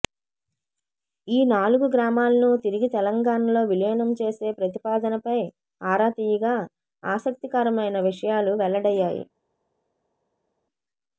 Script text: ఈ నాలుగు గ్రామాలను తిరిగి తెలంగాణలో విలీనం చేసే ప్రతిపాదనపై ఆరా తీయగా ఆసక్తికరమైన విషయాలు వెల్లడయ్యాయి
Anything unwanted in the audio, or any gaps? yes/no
no